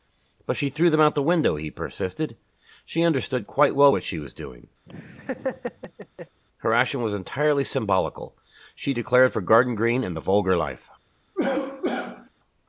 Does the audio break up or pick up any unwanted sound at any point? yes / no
yes